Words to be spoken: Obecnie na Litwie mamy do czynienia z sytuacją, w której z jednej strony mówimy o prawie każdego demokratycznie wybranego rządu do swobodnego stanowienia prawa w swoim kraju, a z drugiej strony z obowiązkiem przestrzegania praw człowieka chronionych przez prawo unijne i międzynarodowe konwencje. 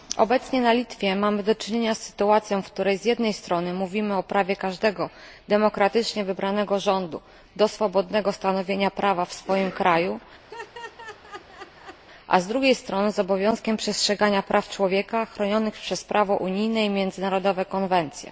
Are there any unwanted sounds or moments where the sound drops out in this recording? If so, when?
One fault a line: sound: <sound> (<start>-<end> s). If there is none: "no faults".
sound: laugh (10.5-12.0 s)